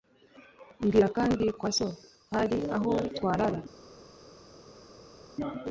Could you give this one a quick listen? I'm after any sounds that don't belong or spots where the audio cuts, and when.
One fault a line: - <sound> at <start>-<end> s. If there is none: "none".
none